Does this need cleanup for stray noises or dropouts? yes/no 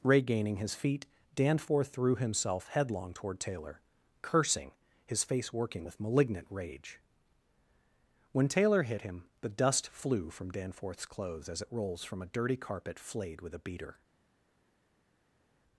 no